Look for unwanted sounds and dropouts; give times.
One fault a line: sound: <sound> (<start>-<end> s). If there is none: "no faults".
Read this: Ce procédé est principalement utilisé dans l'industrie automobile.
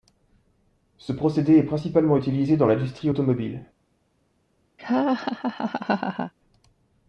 sound: laugh (4.8-6.3 s)